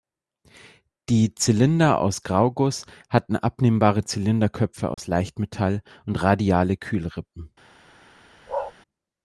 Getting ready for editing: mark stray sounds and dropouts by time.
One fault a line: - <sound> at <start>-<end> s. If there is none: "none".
- dropout at 4.9-5.0 s
- bark at 8.5-8.7 s